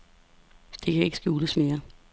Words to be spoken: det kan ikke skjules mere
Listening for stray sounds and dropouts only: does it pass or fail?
pass